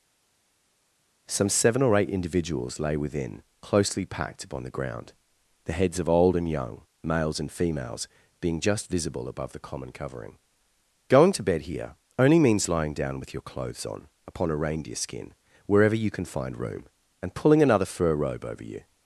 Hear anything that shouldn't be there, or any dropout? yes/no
no